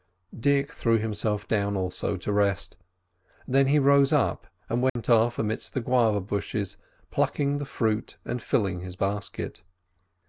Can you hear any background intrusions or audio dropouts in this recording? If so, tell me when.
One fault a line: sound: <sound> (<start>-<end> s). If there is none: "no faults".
sound: dropout (4.9-5.0 s)